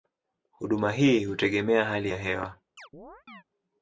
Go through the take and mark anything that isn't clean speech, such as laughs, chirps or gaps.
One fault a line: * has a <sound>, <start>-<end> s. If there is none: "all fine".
* has a chirp, 2.8-3.4 s